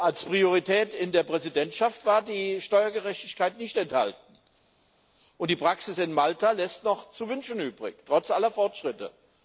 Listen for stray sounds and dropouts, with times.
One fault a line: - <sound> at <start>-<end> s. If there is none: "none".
none